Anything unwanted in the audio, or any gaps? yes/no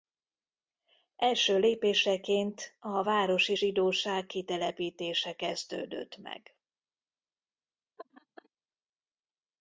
yes